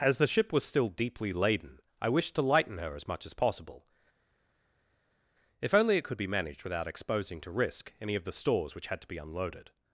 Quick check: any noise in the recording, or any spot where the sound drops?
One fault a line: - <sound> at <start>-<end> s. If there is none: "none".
none